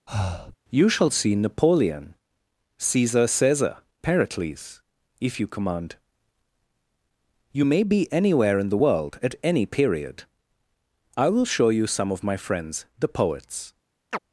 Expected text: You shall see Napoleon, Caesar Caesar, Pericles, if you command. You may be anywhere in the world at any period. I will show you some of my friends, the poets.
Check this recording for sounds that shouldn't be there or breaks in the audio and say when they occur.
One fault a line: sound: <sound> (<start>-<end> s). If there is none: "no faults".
sound: breath (0.1-0.6 s)
sound: chirp (14.1-14.2 s)